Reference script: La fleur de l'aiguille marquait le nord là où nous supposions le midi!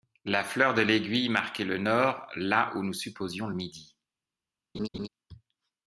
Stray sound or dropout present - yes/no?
yes